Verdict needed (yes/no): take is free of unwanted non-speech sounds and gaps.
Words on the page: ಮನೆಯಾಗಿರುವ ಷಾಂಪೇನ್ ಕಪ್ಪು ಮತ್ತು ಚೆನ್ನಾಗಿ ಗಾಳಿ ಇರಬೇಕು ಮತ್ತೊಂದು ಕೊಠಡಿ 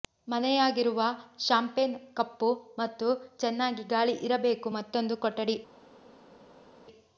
yes